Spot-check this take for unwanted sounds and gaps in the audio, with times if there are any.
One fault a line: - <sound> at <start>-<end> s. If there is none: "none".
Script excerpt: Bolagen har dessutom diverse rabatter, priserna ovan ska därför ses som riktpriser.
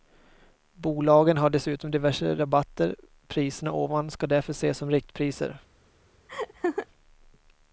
- laugh at 6.3-6.9 s